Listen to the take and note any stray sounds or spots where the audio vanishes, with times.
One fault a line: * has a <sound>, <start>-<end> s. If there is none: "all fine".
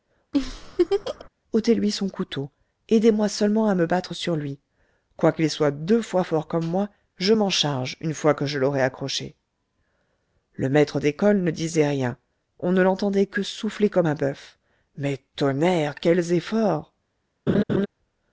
* has a laugh, 0.3-1.3 s
* has a laugh, 17.5-17.9 s